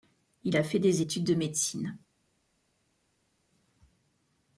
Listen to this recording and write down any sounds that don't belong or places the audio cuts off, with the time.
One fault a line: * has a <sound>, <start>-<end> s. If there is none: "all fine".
all fine